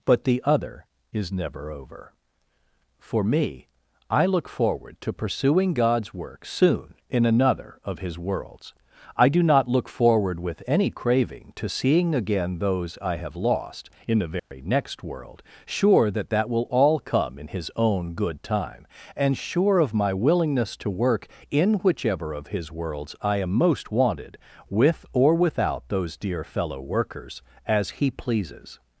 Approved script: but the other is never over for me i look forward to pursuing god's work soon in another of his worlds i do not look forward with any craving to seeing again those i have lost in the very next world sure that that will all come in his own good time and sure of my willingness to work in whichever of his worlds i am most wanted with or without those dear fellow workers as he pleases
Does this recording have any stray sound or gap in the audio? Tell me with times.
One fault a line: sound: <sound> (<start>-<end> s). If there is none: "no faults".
sound: dropout (14.4-14.5 s)